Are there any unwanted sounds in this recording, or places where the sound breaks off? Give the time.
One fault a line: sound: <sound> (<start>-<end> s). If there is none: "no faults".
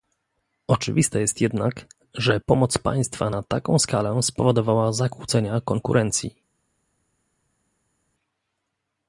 no faults